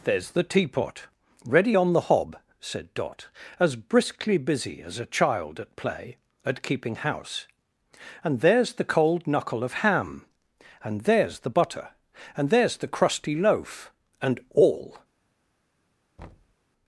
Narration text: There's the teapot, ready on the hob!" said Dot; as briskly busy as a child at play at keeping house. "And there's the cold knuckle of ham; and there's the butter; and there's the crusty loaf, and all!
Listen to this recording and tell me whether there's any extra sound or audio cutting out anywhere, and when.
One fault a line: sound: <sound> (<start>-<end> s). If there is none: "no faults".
sound: thud (16.2-16.6 s)